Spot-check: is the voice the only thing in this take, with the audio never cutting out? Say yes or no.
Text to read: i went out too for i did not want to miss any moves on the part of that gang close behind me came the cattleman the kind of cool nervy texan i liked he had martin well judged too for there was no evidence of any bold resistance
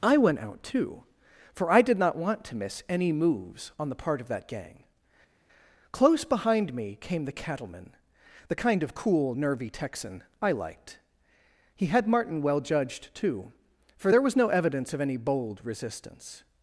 yes